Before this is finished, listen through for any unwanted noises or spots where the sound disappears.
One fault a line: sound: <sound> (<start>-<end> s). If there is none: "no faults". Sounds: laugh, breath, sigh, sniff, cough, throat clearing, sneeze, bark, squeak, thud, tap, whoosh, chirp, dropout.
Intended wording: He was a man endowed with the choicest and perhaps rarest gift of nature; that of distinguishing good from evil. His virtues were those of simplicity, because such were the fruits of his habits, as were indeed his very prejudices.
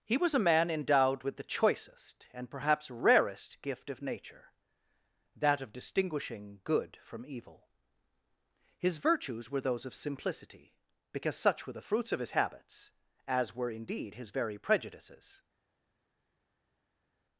no faults